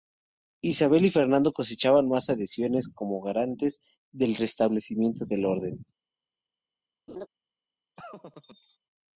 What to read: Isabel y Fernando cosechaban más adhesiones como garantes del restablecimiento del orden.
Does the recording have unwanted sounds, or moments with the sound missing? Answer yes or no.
yes